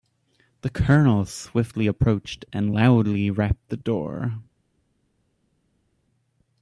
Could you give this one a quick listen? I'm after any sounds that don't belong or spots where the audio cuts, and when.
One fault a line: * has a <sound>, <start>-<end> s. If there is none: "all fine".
all fine